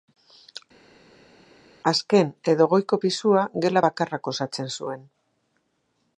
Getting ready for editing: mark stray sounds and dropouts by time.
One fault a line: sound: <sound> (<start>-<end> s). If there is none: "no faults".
no faults